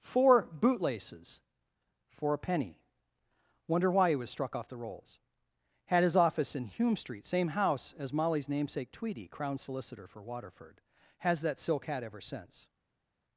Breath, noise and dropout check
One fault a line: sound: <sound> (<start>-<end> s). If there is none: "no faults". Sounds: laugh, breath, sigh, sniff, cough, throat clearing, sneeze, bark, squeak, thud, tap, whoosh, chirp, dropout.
no faults